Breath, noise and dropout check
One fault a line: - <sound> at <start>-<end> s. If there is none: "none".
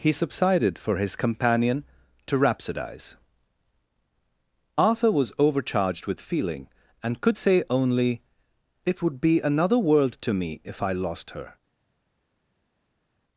none